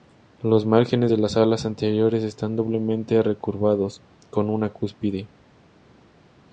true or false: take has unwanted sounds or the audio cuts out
false